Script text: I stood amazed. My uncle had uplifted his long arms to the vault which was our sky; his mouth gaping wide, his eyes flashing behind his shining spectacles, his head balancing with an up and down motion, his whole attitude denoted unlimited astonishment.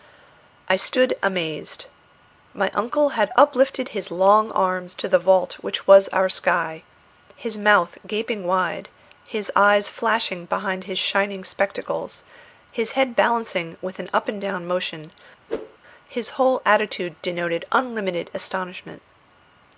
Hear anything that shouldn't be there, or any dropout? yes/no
yes